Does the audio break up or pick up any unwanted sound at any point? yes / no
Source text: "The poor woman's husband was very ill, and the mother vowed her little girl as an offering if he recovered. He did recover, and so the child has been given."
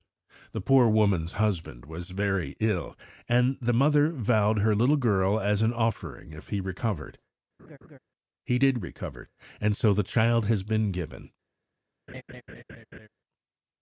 yes